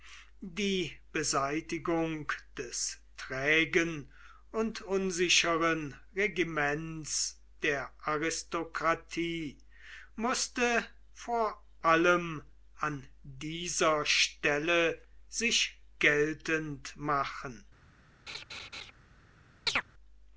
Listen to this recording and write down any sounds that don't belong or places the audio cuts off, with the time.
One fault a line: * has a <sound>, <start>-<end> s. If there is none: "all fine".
* has a laugh, 18.3-18.9 s
* has a chirp, 19.7-19.8 s